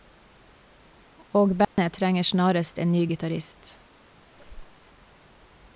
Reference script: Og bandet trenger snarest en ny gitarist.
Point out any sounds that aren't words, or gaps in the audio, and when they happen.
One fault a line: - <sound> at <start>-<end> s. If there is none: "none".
- dropout at 1.6-1.8 s
- squeak at 4.3-4.9 s